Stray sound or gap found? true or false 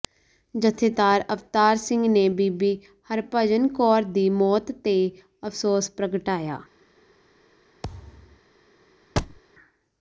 true